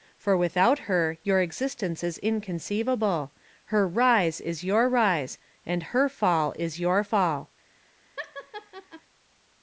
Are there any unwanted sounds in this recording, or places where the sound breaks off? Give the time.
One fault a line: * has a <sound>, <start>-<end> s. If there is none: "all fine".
* has a laugh, 8.2-9.0 s